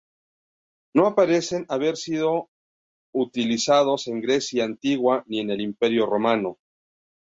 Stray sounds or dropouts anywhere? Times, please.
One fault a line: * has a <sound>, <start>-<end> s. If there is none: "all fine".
all fine